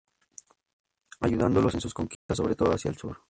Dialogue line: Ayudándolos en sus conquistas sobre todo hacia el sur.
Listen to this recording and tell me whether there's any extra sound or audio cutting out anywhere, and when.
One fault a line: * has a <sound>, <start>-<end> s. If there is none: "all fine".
* has a dropout, 2.1-2.3 s